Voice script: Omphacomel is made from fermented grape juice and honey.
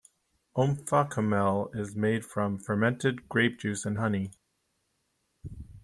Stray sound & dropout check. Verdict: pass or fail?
pass